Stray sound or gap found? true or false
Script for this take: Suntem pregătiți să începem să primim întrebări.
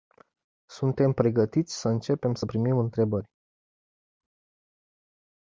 false